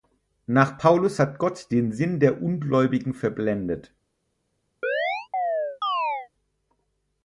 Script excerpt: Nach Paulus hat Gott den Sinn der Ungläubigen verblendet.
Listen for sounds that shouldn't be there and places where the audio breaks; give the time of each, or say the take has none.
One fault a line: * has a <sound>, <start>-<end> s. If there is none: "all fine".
* has a chirp, 4.8-6.3 s